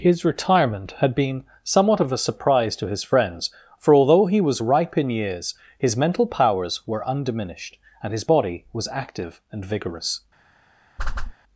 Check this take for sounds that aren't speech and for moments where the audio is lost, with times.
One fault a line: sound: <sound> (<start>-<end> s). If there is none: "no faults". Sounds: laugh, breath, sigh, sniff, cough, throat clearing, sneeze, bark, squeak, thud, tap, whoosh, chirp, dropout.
sound: whoosh (11.0-11.3 s)